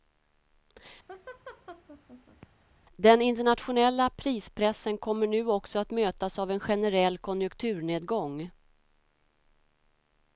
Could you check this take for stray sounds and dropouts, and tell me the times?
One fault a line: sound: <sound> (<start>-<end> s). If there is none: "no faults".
sound: laugh (1.1-2.5 s)